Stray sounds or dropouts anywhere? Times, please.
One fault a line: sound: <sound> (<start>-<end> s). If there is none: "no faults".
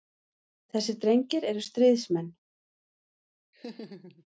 sound: laugh (3.5-4.2 s)